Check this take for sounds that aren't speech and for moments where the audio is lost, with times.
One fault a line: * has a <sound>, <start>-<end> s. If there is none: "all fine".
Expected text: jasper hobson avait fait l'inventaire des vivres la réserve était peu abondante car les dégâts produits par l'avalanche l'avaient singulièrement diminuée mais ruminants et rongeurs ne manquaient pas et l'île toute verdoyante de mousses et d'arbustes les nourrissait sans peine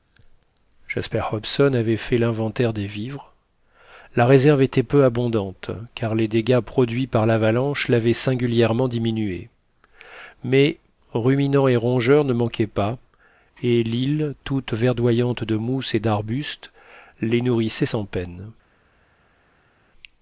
all fine